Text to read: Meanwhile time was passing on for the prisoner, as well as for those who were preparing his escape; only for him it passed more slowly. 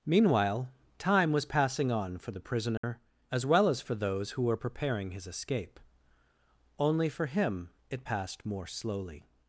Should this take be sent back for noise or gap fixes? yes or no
yes